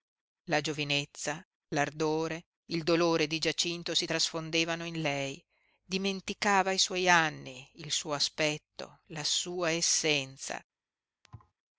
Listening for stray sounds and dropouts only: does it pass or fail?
fail